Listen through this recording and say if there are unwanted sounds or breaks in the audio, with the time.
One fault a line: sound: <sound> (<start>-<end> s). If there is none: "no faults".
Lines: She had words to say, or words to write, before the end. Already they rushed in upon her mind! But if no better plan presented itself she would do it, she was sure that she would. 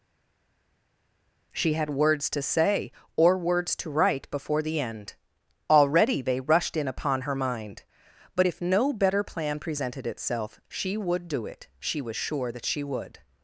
no faults